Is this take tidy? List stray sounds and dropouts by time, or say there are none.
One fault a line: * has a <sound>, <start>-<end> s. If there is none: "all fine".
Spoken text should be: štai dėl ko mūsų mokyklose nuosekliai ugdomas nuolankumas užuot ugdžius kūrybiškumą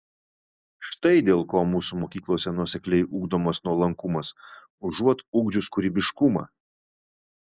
all fine